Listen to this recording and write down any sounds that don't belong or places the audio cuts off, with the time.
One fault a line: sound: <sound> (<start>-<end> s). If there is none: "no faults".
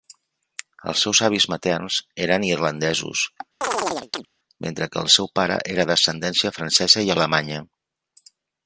sound: chirp (3.6-4.3 s)